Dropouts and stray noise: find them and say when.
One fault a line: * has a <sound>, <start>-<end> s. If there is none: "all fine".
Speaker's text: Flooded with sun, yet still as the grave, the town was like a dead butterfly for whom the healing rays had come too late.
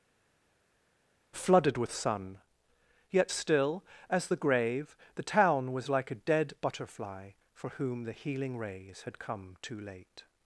all fine